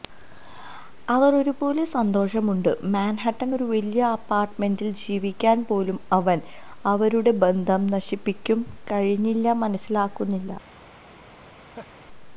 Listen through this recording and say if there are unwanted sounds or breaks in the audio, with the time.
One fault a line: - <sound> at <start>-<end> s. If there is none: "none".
- laugh at 11.5-12.0 s